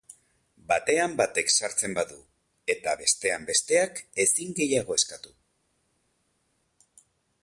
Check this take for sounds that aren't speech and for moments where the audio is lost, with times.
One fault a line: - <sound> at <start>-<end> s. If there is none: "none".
none